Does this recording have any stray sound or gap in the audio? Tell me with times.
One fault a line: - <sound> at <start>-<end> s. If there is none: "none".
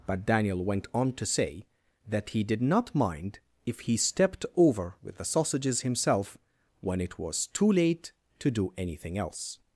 none